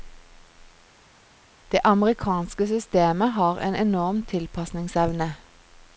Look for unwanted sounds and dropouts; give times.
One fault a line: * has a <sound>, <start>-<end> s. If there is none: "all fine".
all fine